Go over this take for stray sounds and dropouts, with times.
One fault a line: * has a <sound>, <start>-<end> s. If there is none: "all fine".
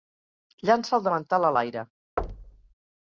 * has a thud, 2.2-2.7 s